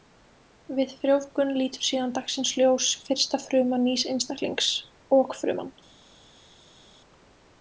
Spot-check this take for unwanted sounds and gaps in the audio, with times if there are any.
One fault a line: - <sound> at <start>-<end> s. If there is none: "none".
none